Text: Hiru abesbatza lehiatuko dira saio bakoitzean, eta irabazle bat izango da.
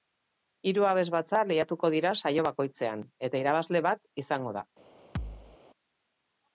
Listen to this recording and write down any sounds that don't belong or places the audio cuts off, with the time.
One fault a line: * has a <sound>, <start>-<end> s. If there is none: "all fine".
* has a thud, 5.2-5.6 s